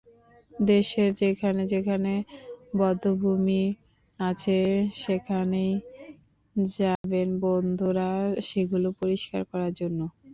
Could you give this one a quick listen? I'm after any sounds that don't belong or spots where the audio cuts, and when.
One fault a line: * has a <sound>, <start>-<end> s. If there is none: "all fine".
* has a dropout, 7.0-7.0 s